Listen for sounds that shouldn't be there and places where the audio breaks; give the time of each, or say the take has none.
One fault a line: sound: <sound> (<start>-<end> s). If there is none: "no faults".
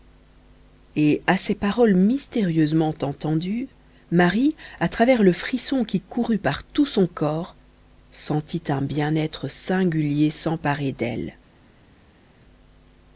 no faults